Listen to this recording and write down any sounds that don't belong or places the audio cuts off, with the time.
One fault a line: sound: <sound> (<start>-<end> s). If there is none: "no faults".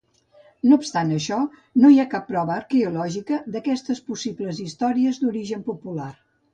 no faults